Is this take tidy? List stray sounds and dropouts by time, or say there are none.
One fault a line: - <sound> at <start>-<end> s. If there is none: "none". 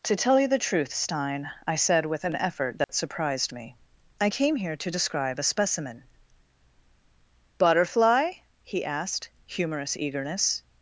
- dropout at 2.8-2.9 s